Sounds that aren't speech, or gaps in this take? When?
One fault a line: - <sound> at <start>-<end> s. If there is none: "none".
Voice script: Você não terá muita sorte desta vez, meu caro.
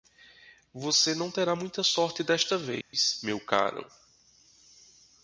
- dropout at 2.8-2.9 s